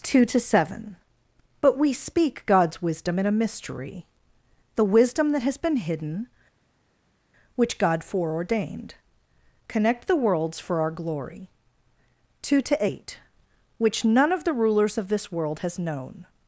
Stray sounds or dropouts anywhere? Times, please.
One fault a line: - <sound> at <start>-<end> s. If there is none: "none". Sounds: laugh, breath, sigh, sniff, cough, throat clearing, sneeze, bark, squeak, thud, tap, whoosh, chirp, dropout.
none